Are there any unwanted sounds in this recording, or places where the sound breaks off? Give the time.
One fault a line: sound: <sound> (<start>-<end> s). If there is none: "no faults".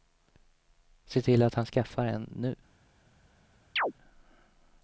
sound: chirp (3.8-3.9 s)